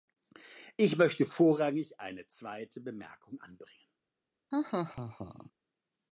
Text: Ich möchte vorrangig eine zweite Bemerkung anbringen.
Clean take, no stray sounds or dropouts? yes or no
no